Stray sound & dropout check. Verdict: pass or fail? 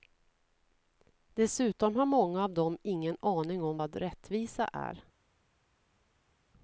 pass